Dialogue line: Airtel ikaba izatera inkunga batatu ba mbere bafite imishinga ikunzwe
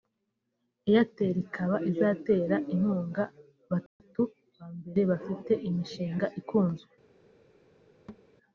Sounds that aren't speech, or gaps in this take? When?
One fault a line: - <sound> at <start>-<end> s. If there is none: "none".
- dropout at 3.9-4.0 s
- thud at 8.1-8.3 s